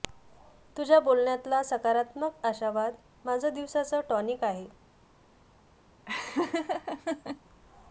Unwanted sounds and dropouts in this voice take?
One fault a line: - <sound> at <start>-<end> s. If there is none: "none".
- laugh at 6.1-7.4 s